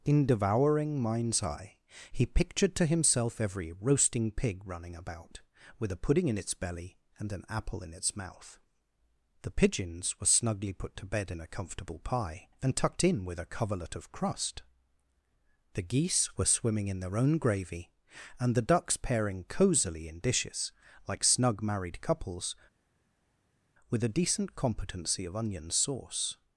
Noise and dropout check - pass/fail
pass